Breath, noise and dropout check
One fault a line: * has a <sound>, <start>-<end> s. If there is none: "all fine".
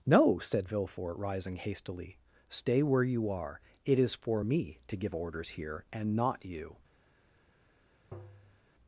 * has a tap, 8.1-8.7 s